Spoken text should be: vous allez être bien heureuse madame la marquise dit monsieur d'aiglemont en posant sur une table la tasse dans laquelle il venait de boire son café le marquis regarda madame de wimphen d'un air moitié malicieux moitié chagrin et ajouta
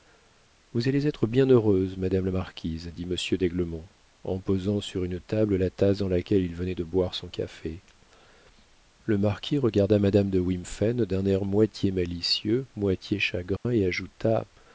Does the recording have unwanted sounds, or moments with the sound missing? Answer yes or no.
yes